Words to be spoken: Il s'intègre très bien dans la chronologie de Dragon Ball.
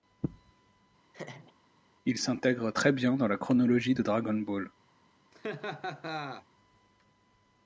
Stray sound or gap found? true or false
true